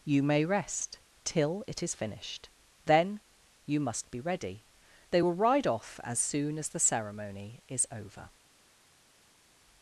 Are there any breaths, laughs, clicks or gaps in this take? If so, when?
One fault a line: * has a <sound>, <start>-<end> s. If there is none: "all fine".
all fine